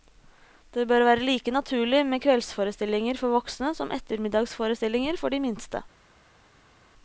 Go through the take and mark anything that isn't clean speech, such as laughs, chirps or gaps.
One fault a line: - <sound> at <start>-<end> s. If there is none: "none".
none